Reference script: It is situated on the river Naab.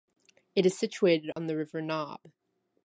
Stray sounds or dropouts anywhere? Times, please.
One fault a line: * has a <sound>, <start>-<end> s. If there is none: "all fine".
* has a dropout, 1.3-1.4 s